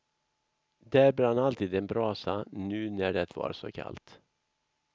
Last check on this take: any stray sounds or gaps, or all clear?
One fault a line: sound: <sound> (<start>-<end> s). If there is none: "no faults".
no faults